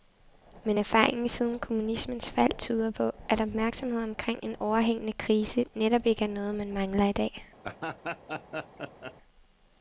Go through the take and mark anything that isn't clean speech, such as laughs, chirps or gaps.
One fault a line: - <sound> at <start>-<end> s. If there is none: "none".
- laugh at 7.6-9.1 s